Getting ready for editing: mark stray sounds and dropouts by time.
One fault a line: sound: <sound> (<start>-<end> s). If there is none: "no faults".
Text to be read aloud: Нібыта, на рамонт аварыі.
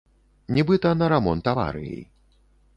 no faults